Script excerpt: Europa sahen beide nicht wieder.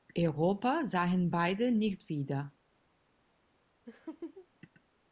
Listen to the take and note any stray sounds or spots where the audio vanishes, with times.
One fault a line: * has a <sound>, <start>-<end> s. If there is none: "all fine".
* has a laugh, 3.9-4.5 s